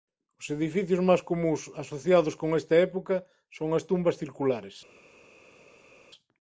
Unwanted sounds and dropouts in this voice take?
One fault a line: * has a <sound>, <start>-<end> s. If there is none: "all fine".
all fine